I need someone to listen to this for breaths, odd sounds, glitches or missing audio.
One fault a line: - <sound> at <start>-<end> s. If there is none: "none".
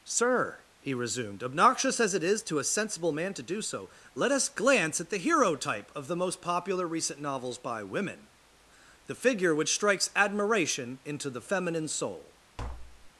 - tap at 12.6-13.1 s